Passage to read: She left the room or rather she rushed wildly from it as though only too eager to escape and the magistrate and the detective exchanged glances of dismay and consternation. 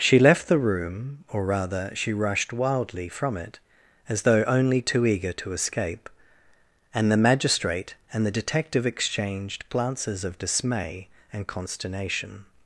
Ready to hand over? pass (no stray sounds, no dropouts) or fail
pass